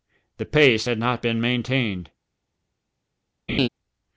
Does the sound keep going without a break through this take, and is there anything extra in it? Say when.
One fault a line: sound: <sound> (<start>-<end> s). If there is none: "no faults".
sound: laugh (3.5-3.7 s)